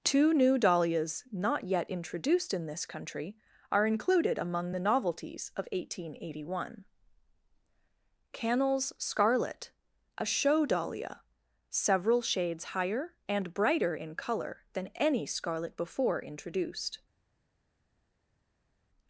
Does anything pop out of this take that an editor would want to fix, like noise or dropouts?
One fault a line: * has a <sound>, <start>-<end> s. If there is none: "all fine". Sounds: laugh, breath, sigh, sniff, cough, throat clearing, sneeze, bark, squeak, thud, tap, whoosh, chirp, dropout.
all fine